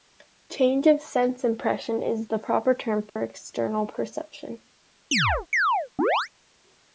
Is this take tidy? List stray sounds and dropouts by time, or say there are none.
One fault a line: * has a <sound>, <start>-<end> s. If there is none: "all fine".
* has a dropout, 3.1-3.2 s
* has a chirp, 5.1-6.3 s